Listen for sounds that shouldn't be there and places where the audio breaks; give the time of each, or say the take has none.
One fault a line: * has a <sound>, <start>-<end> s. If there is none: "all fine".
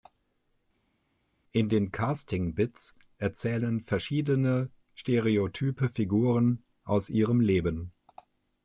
all fine